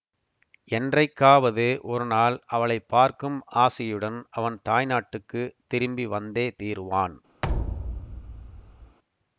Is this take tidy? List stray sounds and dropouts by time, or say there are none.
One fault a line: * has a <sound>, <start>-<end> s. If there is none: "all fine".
* has a thud, 7.4-9.0 s